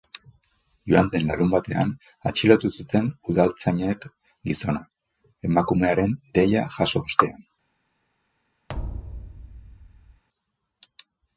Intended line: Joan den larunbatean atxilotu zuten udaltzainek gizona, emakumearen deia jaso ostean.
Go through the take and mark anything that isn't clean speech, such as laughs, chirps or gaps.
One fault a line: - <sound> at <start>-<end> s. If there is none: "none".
- thud at 8.7-10.2 s